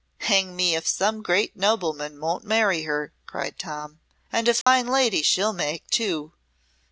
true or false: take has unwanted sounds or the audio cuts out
true